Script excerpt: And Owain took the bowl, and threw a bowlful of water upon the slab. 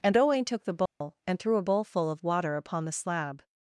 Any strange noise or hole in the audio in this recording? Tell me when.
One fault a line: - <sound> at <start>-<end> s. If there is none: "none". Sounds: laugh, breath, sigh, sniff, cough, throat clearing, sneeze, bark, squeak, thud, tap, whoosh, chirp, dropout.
- dropout at 0.9-1.0 s